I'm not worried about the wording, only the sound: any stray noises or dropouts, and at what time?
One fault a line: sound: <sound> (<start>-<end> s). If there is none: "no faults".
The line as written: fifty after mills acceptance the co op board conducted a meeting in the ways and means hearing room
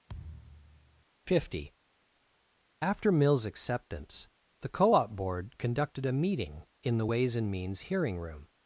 sound: thud (0.1-1.0 s)